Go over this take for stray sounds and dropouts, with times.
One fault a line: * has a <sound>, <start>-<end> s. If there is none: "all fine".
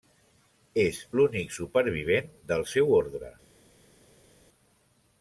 all fine